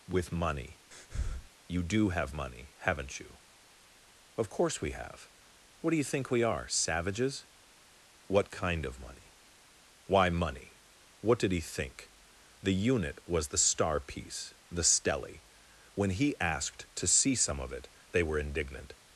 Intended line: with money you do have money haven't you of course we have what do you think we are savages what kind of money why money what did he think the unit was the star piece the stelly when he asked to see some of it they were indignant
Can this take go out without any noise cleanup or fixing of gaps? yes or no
no